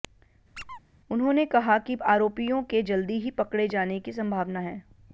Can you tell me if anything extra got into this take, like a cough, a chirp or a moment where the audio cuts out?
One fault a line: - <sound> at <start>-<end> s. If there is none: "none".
- squeak at 0.5-0.8 s